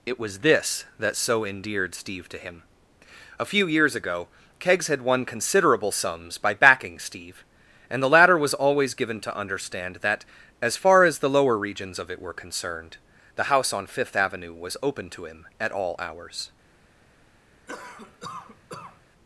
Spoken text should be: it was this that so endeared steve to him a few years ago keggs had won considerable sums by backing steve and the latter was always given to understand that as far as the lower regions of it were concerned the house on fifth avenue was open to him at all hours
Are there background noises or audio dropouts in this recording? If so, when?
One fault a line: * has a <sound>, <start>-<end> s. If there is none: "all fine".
* has a cough, 17.7-19.0 s